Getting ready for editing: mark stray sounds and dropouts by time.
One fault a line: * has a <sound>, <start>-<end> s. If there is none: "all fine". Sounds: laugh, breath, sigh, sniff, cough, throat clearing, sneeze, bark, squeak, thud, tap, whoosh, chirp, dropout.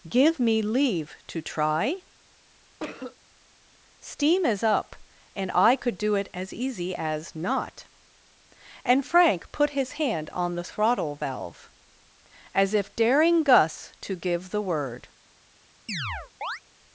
* has a cough, 2.8-3.2 s
* has a chirp, 15.9-16.6 s